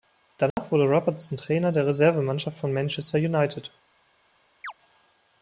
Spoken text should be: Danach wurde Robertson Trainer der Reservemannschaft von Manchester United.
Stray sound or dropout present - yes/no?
yes